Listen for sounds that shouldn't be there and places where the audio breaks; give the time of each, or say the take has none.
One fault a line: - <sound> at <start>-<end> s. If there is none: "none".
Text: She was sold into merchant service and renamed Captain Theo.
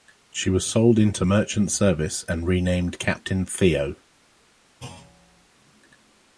- thud at 4.8-5.5 s